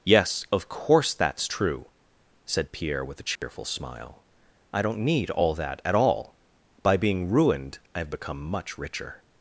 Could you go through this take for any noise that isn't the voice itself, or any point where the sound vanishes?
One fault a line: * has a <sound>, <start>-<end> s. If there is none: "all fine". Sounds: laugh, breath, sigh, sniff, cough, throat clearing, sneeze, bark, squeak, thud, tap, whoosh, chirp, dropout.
* has a dropout, 3.4-3.4 s